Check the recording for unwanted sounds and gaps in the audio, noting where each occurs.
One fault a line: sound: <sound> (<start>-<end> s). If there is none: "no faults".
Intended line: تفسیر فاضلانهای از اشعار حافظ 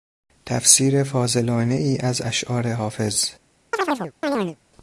sound: chirp (3.7-4.6 s)